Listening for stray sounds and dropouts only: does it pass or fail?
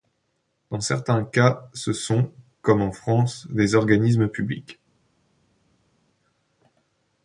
pass